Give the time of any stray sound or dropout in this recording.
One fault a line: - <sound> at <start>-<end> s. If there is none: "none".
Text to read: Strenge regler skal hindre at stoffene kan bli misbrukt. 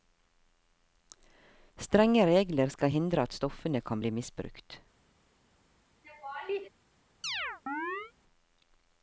- laugh at 6.0-6.7 s
- chirp at 7.2-8.1 s